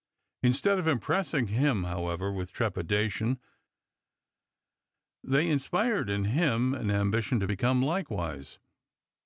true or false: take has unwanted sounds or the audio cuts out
false